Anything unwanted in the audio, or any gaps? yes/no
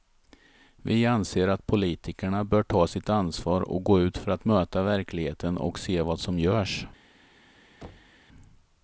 yes